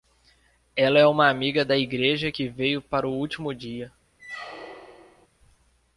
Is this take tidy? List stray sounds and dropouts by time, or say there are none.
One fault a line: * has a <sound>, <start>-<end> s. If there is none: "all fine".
* has a squeak, 4.2-5.3 s